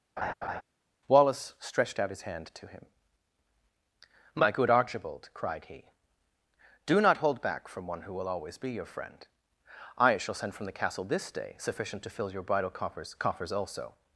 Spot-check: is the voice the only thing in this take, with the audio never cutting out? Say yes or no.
no